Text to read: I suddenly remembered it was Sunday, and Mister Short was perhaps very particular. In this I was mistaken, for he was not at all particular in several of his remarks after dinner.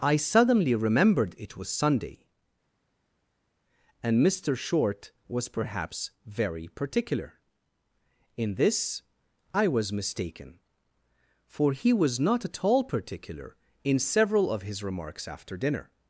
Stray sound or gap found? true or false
false